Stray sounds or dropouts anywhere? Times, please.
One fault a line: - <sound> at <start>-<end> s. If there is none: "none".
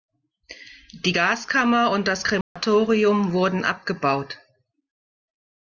- dropout at 2.4-2.6 s